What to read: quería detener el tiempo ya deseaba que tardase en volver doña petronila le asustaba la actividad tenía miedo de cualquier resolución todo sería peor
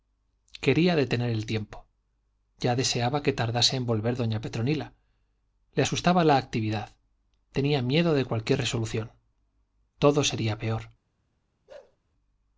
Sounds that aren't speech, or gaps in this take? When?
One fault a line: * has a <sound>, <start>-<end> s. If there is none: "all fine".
* has a bark, 11.7-12.0 s